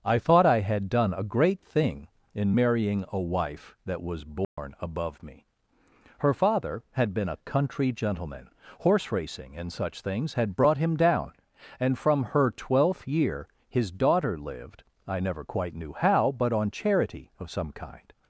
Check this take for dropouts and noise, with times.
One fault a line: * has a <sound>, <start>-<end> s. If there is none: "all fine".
* has a dropout, 4.4-4.6 s